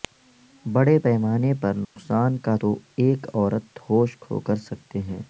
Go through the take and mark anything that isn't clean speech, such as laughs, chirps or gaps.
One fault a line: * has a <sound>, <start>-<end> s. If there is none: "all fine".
* has a dropout, 1.8-2.0 s